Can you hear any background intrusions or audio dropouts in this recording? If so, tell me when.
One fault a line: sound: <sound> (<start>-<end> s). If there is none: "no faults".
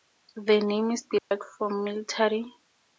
sound: dropout (1.2-1.3 s)